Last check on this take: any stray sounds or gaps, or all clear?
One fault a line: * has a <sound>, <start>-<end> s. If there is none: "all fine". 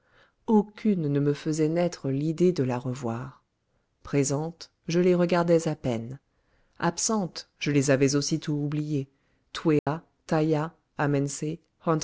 * has a dropout, 9.8-9.9 s